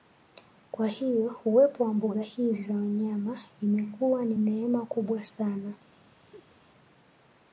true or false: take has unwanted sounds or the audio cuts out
true